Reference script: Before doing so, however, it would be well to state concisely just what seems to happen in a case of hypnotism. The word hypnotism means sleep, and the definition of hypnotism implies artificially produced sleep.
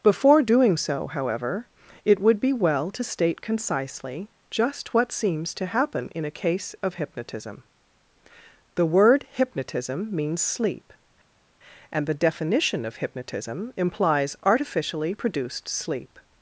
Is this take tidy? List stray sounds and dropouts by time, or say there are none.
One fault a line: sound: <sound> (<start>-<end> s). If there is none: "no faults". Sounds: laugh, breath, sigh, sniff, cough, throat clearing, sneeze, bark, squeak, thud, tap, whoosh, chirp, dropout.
no faults